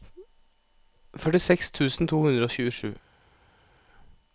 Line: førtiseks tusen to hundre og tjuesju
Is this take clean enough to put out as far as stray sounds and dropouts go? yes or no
yes